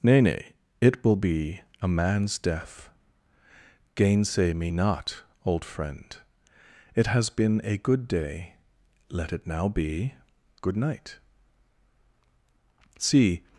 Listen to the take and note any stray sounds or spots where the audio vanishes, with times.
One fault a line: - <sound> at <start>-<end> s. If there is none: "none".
none